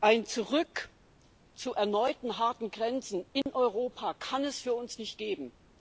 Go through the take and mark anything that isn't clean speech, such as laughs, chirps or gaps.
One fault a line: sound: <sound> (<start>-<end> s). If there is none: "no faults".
sound: dropout (3.4-3.5 s)